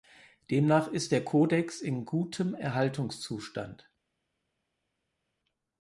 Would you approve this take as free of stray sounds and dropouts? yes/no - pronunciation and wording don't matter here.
yes